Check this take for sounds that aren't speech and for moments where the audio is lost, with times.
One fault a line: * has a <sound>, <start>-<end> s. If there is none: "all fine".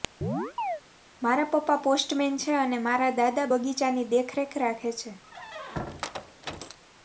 * has a chirp, 0.2-0.8 s
* has a squeak, 5.2-6.8 s